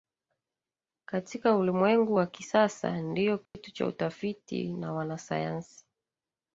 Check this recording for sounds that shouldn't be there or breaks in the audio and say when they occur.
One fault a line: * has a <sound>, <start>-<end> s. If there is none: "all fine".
* has a dropout, 3.5-3.5 s